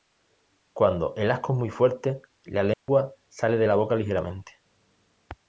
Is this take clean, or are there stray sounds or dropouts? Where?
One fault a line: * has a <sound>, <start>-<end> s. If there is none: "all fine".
* has a dropout, 2.7-2.9 s